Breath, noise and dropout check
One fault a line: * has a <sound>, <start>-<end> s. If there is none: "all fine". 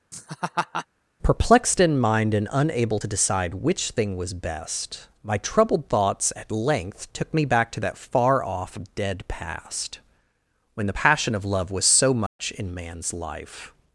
* has a laugh, 0.1-0.9 s
* has a dropout, 12.3-12.4 s